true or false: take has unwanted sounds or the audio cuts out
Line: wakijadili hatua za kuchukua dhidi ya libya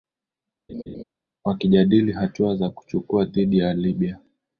true